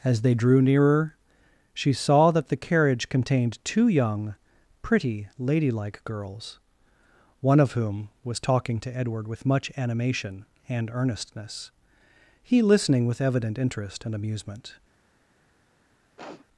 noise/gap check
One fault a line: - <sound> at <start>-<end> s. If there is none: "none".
- sniff at 16.2-16.5 s